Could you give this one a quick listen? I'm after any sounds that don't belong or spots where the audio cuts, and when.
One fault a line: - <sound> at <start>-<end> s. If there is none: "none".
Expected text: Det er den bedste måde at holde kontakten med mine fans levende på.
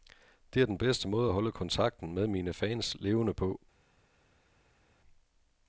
none